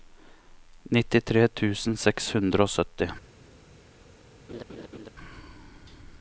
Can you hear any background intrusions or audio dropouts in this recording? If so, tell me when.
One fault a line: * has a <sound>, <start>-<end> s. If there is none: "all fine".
* has a laugh, 4.5-5.1 s